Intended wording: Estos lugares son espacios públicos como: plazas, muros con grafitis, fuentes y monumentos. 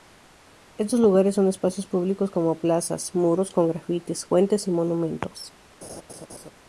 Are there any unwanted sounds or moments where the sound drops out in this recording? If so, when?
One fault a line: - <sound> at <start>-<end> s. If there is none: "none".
- laugh at 5.8-6.5 s